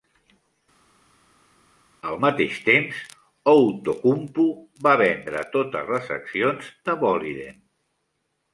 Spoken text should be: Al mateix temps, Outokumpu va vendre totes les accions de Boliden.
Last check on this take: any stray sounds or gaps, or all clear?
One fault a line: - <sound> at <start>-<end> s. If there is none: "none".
none